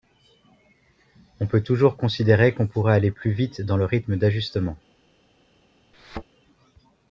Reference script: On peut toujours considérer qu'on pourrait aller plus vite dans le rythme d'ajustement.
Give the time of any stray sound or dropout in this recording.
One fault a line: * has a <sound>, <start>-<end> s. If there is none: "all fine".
* has a thud, 5.9-6.2 s